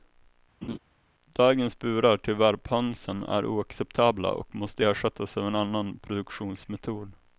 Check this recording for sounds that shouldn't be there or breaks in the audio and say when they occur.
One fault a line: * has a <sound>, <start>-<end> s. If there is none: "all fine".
* has a laugh, 0.6-0.8 s